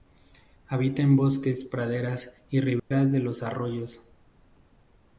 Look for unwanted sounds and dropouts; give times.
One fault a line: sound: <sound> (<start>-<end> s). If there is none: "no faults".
sound: dropout (2.8-2.9 s)